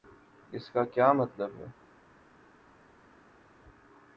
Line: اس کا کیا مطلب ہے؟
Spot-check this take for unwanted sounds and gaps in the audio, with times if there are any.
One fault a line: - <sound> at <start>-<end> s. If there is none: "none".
none